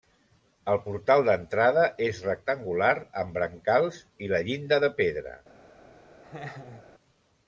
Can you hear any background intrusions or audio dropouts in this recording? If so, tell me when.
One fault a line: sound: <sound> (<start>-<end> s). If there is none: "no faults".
sound: laugh (6.2-6.9 s)